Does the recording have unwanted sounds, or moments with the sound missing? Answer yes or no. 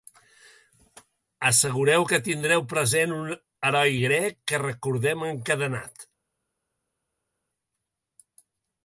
no